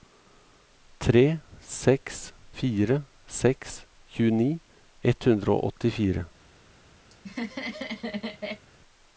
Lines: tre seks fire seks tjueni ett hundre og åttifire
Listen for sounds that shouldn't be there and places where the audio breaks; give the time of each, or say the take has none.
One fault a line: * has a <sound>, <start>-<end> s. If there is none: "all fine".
* has a laugh, 7.1-8.7 s